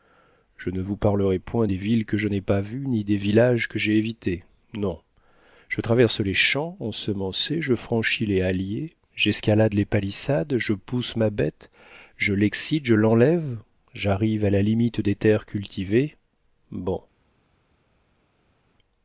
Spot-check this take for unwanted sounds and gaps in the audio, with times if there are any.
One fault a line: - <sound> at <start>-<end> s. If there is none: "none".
none